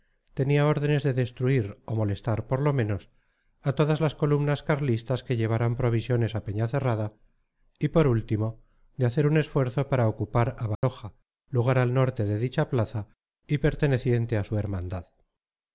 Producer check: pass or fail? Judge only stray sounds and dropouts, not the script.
fail